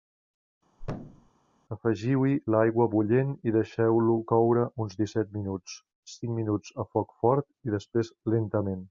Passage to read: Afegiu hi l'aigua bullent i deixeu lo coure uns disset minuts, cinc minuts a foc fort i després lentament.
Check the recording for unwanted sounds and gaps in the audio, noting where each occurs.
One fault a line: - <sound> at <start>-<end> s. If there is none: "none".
- thud at 0.8-1.3 s